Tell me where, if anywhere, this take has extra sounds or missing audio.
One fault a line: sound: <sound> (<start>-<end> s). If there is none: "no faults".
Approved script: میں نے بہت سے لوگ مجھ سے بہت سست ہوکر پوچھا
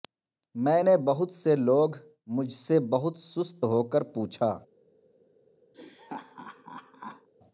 sound: laugh (5.7-7.3 s)